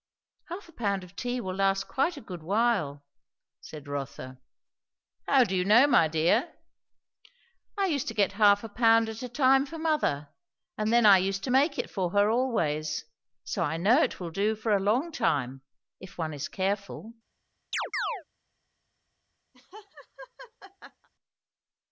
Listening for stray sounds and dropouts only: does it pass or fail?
fail